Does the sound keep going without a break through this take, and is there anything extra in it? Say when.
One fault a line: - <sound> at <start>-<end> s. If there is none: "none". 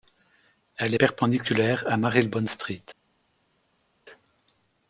none